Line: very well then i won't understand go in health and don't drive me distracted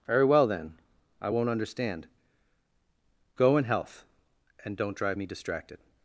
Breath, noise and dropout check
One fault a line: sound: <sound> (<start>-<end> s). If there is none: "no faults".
no faults